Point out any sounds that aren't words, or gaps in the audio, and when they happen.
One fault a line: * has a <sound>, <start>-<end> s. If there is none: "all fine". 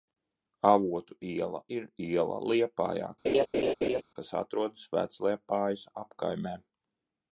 * has a laugh, 3.2-4.0 s